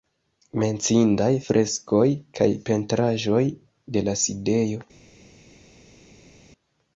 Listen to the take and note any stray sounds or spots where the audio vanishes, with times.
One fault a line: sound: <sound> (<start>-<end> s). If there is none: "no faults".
no faults